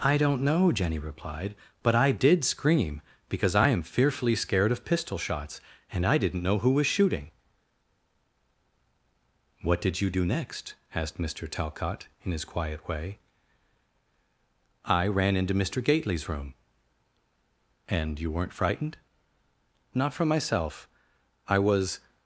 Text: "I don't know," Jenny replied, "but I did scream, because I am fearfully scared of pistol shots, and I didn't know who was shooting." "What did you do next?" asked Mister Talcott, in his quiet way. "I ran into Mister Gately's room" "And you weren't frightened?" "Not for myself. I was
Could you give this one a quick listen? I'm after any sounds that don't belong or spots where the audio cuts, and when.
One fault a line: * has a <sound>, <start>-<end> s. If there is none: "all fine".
all fine